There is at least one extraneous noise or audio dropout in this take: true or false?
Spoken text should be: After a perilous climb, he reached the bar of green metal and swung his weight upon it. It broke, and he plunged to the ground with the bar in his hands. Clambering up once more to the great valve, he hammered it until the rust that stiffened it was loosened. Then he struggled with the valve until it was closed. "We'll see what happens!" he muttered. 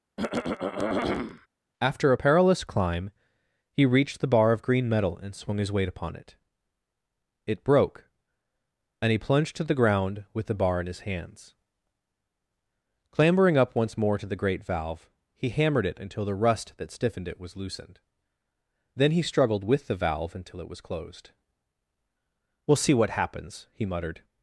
true